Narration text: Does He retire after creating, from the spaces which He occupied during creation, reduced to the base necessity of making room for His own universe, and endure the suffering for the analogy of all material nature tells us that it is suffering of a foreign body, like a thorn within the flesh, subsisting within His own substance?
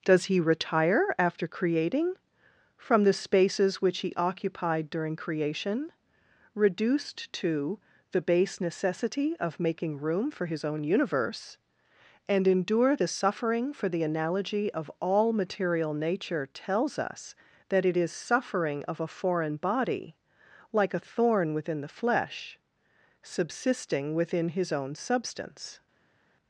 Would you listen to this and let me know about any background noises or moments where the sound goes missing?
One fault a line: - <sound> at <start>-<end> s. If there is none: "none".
none